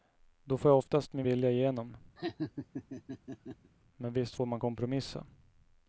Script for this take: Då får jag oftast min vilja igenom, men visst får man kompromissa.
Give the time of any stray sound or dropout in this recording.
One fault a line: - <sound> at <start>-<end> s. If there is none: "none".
- laugh at 2.2-3.7 s